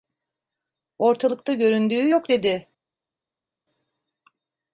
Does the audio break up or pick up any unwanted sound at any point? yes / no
no